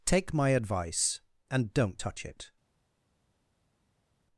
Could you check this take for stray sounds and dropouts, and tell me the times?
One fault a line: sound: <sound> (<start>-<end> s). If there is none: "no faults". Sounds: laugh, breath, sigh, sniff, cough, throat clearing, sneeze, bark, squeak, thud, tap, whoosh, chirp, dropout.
no faults